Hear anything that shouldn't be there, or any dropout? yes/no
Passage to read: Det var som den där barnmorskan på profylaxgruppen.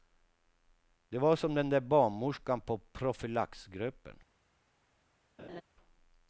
yes